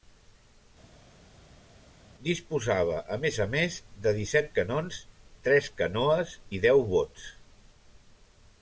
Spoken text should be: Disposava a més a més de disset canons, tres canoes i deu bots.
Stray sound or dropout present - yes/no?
no